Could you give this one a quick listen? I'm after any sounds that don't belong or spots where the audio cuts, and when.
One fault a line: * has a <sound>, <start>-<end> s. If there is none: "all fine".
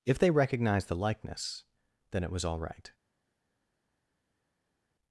all fine